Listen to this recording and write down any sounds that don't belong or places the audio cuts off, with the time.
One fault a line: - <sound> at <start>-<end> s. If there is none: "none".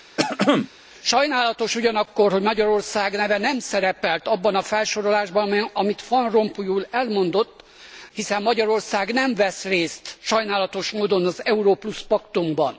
- throat clearing at 0.2-0.7 s